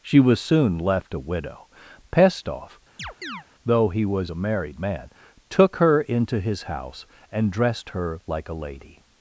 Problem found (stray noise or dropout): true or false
true